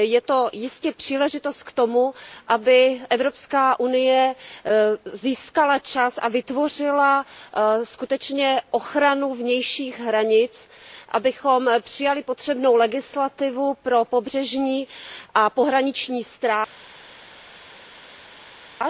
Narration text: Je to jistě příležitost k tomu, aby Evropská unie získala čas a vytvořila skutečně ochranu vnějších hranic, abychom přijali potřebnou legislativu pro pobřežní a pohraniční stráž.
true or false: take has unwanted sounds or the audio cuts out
false